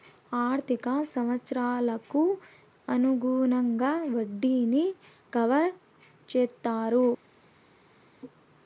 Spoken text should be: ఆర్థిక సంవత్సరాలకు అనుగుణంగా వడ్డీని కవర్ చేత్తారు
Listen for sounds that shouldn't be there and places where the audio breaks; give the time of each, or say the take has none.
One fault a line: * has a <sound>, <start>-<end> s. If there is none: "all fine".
all fine